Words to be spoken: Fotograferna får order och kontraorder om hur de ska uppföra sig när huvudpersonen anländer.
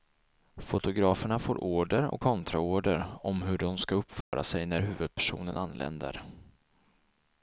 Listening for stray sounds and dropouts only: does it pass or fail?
fail